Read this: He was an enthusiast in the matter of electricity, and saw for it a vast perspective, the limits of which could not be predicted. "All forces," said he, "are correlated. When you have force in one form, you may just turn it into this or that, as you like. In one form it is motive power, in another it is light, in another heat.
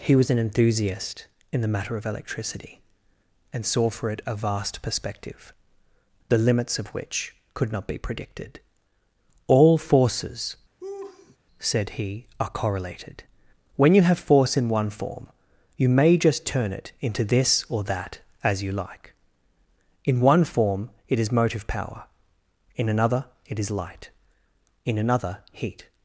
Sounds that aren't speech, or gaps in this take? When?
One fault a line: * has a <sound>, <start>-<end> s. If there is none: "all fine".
* has a laugh, 10.8-11.4 s